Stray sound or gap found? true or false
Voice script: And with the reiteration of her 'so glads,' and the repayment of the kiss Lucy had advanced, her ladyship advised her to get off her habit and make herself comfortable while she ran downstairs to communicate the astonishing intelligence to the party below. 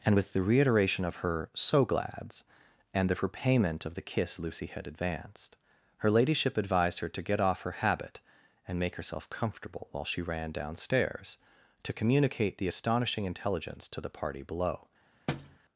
true